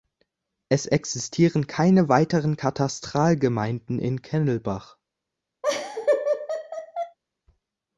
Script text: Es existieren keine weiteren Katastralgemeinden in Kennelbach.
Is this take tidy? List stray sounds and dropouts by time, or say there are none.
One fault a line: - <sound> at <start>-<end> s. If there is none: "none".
- laugh at 5.6-7.2 s